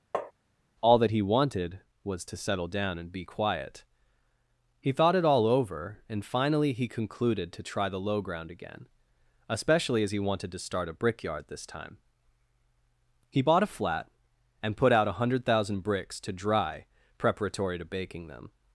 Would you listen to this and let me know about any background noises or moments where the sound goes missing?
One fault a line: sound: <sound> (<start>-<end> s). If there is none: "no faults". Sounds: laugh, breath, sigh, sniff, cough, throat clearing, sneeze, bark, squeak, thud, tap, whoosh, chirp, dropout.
sound: tap (0.1-0.3 s)